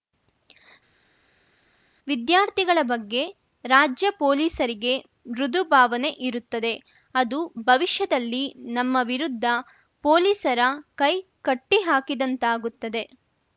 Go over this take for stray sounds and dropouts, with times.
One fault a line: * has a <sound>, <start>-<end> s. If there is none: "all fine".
all fine